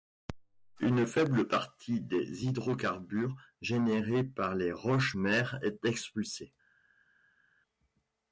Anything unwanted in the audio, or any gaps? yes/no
no